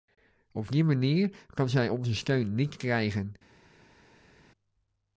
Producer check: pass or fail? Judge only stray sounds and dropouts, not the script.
pass